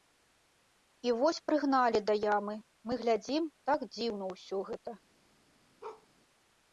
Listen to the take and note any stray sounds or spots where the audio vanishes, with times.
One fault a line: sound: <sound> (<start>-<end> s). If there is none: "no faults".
sound: bark (5.8-6.1 s)